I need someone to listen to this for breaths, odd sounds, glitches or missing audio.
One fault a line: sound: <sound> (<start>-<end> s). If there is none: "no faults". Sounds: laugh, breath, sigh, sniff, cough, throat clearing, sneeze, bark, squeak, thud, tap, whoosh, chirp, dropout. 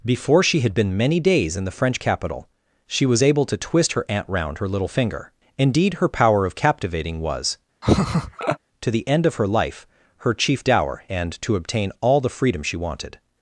sound: laugh (7.8-8.6 s)